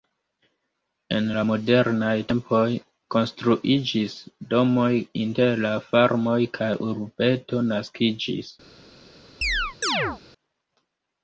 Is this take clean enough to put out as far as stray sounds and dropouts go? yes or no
no